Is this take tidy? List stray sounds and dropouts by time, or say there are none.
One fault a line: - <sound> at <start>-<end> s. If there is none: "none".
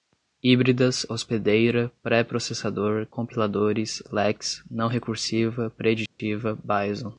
- dropout at 6.1-6.2 s